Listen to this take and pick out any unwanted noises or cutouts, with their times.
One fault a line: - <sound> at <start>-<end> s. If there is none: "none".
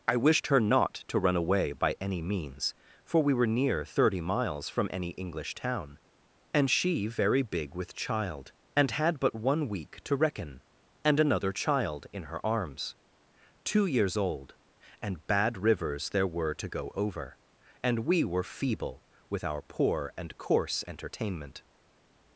none